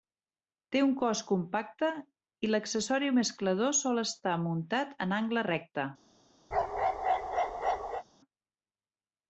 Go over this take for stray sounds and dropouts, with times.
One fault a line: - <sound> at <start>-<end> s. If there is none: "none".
- bark at 6.5-8.0 s